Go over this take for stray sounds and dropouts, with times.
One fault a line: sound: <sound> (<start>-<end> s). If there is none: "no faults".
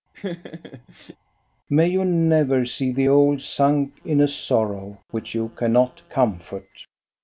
sound: laugh (0.1-1.2 s)